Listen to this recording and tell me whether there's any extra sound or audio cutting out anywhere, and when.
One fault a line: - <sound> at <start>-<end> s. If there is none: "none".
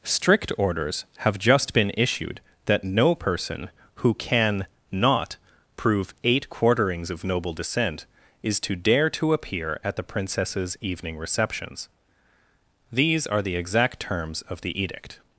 none